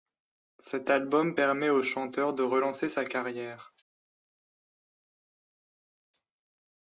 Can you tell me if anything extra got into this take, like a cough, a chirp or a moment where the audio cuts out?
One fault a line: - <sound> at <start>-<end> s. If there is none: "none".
none